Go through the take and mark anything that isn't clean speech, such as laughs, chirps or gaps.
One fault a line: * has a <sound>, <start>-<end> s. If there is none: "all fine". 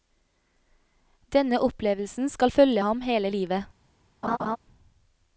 * has a laugh, 4.2-4.6 s